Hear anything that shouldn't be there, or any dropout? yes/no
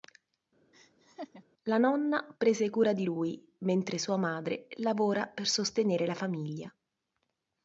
yes